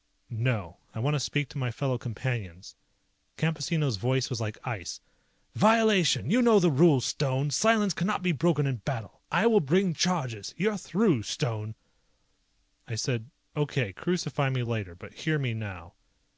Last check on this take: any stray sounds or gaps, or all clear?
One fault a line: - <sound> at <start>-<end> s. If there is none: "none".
none